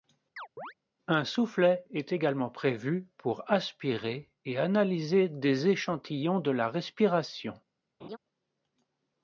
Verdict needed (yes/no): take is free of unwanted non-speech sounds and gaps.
no